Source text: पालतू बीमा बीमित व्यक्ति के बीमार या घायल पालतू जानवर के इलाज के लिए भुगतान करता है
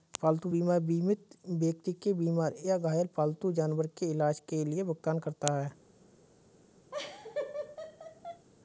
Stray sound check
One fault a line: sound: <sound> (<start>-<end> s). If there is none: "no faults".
sound: laugh (6.9-8.5 s)